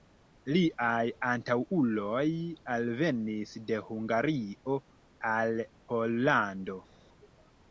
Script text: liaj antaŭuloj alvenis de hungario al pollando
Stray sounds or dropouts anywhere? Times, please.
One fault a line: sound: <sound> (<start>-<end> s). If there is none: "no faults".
no faults